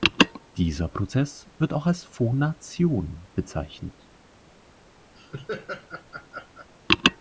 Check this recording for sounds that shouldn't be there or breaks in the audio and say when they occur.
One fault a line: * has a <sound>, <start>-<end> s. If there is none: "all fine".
* has a laugh, 5.1-6.7 s